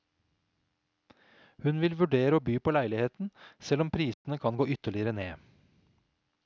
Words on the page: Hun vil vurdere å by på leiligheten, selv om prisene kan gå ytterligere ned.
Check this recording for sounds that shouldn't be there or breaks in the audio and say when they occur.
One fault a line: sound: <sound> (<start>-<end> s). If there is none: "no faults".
sound: dropout (4.1-4.2 s)